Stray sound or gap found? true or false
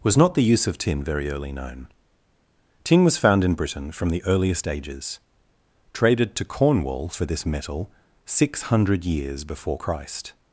false